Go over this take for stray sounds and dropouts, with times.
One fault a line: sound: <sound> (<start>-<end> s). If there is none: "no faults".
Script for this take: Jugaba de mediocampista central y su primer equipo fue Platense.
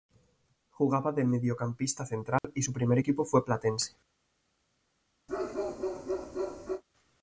sound: dropout (2.4-2.4 s)
sound: bark (5.3-6.8 s)